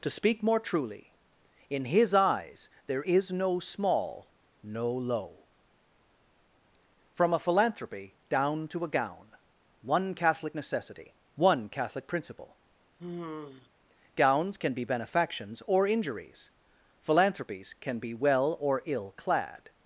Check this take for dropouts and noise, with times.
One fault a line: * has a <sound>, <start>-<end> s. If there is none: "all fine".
* has a sigh, 13.0-13.7 s